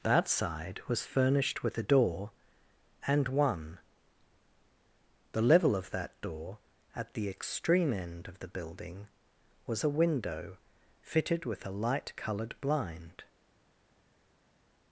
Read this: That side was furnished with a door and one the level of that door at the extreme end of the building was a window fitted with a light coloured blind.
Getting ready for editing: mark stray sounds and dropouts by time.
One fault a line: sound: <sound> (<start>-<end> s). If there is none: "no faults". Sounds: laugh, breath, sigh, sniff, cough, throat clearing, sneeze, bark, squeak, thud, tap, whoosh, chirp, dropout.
no faults